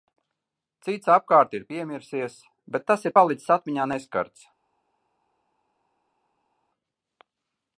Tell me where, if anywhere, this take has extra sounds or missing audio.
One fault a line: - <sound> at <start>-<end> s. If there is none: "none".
none